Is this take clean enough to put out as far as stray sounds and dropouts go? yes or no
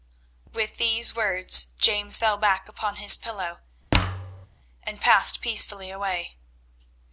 no